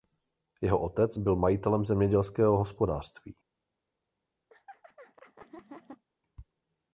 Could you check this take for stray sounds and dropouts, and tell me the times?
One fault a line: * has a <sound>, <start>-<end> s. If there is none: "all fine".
* has a laugh, 4.5-6.0 s